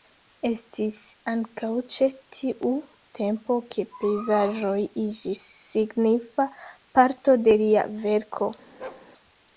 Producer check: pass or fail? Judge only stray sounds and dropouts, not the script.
fail